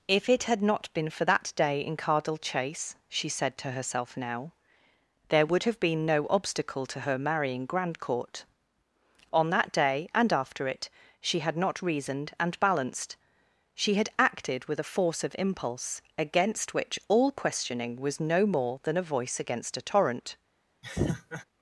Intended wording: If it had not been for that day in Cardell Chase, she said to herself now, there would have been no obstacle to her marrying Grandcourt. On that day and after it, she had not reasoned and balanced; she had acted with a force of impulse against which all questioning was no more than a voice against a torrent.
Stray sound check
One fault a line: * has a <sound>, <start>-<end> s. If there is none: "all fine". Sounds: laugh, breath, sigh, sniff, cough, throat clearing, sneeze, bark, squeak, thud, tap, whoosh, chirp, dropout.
* has a laugh, 20.8-21.4 s